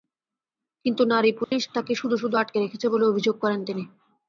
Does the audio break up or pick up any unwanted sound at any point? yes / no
yes